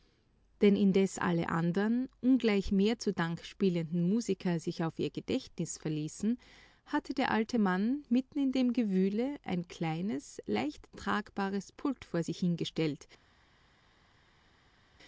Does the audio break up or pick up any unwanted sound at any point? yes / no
no